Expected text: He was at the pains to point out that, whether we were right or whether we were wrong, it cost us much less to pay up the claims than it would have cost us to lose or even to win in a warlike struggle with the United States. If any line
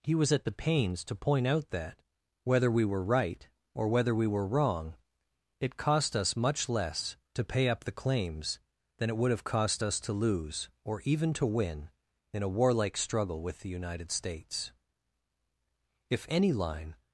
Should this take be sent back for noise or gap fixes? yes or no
no